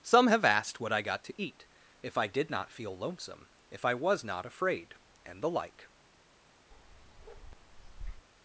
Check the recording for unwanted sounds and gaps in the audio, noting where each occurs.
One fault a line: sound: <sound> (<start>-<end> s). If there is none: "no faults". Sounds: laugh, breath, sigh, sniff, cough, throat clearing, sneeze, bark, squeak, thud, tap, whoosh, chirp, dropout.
sound: bark (6.7-8.3 s)